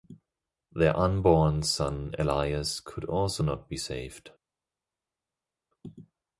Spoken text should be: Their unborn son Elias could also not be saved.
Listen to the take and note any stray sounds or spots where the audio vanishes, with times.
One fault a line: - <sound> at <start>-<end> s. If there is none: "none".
none